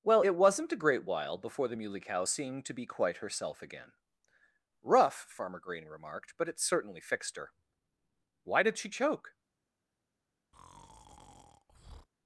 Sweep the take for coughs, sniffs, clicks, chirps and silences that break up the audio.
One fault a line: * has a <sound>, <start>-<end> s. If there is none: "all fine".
* has a breath, 10.5-12.1 s